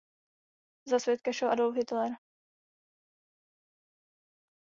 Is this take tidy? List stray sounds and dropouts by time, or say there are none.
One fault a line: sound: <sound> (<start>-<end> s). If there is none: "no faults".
no faults